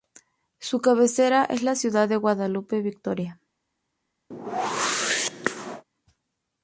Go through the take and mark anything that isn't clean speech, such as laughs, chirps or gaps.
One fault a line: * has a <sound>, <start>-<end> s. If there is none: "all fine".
* has a whoosh, 4.3-5.8 s